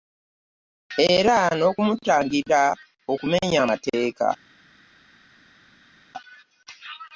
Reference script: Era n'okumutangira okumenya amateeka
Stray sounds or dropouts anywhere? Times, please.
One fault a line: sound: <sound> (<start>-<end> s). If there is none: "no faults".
no faults